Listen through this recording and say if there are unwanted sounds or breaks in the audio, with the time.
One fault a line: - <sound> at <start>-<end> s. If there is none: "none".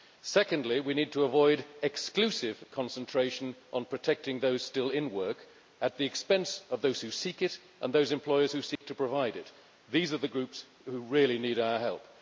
- dropout at 8.8-8.8 s